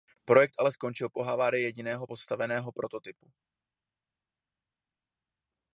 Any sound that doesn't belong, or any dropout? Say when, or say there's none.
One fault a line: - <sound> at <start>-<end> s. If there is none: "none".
none